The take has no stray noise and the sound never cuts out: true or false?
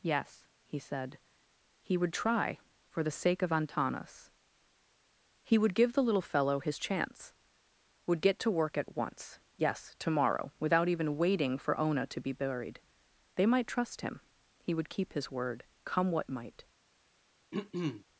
false